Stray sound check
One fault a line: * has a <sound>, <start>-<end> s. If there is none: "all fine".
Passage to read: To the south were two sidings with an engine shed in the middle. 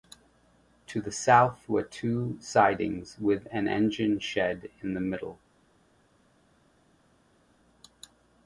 all fine